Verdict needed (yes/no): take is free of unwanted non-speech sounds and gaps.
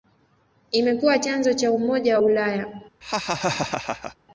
no